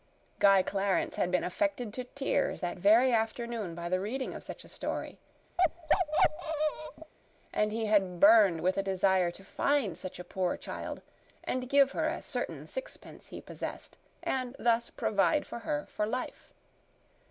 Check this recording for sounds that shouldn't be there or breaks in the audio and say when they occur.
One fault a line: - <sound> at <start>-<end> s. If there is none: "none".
- bark at 5.6-7.1 s